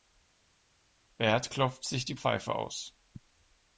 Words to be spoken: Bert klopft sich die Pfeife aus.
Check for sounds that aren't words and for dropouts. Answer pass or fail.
pass